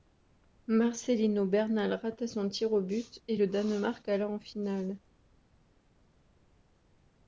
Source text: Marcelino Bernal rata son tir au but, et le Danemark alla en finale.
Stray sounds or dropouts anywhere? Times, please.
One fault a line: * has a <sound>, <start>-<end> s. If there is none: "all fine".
all fine